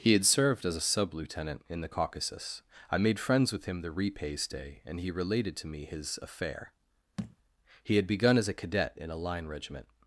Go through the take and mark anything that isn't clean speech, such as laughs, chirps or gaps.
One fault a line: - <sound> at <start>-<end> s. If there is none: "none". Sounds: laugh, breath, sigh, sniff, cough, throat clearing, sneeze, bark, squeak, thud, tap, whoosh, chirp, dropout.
- thud at 7.2-7.4 s